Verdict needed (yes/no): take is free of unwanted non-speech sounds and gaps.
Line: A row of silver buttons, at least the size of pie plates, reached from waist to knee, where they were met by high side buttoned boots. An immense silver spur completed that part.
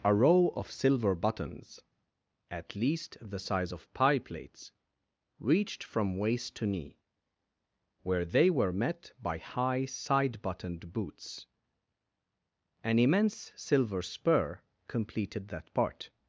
yes